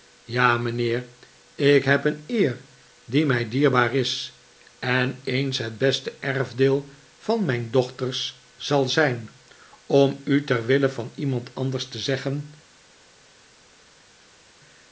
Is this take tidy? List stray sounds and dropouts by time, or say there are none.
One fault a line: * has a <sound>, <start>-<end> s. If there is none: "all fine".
all fine